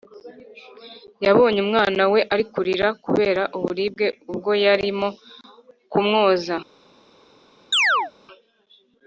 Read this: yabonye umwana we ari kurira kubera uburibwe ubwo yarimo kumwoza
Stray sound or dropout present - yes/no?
yes